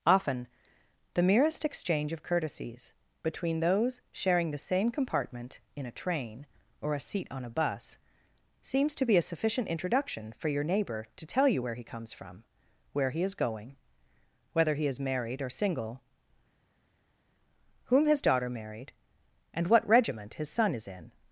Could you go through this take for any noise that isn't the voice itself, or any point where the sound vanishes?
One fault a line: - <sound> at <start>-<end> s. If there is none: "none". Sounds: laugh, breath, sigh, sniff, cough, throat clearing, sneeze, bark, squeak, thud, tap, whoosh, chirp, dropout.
none